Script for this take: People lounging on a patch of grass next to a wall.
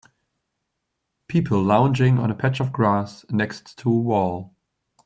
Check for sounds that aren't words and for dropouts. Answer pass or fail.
pass